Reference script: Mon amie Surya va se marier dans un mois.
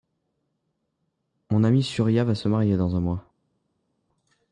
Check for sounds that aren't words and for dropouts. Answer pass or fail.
pass